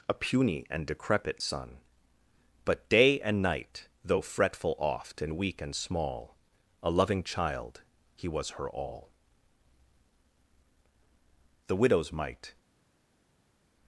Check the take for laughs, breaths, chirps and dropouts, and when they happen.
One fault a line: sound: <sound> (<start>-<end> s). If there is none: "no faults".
no faults